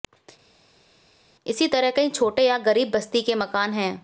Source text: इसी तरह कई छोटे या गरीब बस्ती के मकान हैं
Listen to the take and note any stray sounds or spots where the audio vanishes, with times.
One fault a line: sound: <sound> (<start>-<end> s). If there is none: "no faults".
no faults